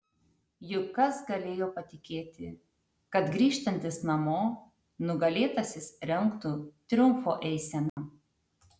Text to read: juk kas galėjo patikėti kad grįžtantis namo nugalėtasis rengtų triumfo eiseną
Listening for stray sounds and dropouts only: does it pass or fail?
fail